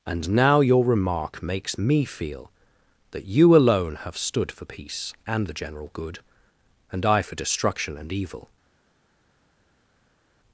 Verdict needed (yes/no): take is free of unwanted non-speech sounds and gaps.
yes